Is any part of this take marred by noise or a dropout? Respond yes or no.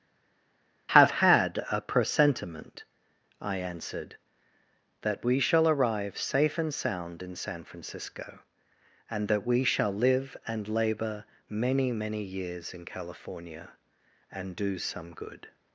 no